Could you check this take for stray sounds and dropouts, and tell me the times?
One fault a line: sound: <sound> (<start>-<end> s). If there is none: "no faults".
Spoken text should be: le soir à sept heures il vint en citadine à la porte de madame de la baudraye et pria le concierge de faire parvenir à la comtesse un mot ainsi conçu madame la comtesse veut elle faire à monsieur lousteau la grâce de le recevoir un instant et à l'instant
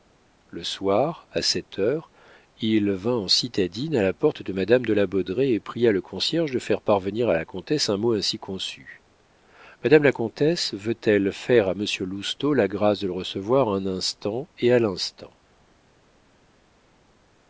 no faults